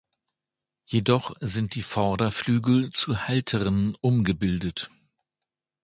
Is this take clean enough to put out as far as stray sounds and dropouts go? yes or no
yes